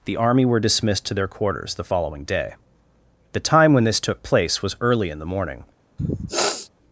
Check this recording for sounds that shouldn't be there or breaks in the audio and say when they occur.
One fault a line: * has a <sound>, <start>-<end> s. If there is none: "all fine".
* has a sniff, 6.0-6.7 s